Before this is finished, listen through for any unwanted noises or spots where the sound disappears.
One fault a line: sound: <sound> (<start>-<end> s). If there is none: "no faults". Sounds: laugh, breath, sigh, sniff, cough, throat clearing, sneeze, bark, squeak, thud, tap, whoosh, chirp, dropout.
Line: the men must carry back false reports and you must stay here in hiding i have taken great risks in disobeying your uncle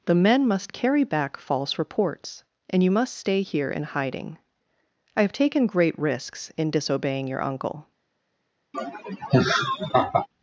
sound: laugh (8.7-10.3 s)